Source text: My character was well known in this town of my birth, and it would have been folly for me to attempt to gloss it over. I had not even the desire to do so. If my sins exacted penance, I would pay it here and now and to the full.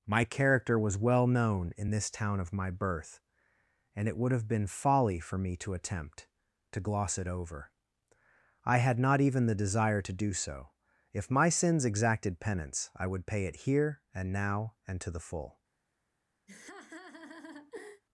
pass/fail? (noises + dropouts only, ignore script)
fail